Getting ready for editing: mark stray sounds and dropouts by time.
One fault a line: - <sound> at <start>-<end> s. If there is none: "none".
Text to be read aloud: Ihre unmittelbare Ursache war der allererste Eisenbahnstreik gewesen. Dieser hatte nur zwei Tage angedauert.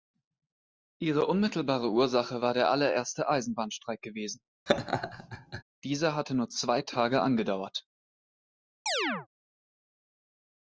- laugh at 4.7-5.6 s
- chirp at 8.9-9.3 s